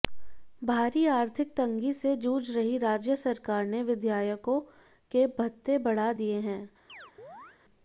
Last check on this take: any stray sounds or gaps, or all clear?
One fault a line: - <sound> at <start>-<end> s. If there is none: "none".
- chirp at 6.9-7.6 s